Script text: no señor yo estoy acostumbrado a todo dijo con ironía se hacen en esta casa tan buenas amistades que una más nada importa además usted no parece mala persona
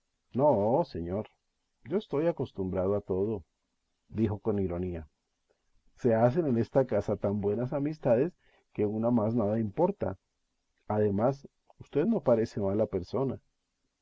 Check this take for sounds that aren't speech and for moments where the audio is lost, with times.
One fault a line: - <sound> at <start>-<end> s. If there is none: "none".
none